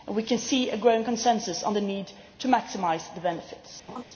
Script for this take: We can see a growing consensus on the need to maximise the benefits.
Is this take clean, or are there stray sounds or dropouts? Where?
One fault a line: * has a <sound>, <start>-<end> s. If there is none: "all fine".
* has a laugh, 3.9-4.0 s